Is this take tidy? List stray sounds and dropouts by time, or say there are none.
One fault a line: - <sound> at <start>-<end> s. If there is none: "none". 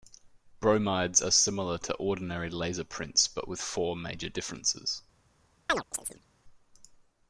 - chirp at 5.7-6.3 s